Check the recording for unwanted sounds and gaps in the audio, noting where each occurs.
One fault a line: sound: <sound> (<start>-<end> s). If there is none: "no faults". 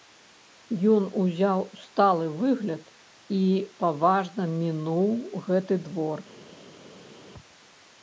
no faults